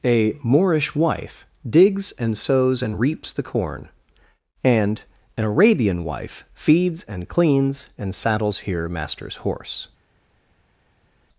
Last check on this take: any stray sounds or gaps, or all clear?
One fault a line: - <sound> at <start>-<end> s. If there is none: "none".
none